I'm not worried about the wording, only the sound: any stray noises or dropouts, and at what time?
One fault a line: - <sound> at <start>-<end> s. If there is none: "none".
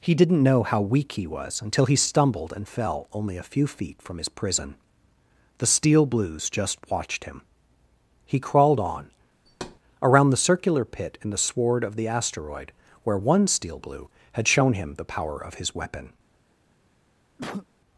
- thud at 9.5-9.8 s
- cough at 17.4-17.7 s